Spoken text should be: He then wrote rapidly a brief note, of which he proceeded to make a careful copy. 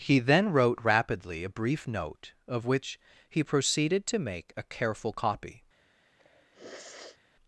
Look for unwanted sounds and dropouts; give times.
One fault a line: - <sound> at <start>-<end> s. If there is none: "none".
- sniff at 6.2-7.2 s